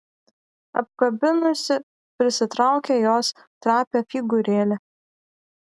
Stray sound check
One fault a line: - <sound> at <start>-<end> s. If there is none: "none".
none